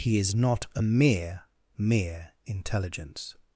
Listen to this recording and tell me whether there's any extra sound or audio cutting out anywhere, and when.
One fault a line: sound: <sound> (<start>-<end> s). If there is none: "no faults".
no faults